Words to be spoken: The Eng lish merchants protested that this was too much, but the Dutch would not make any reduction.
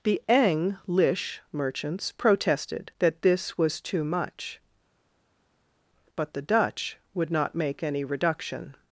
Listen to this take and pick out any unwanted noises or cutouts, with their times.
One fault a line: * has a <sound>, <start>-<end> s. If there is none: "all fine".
all fine